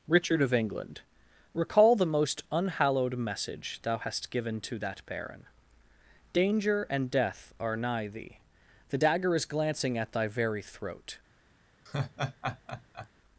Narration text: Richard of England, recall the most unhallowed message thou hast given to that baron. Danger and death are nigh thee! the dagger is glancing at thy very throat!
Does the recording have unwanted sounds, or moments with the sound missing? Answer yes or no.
yes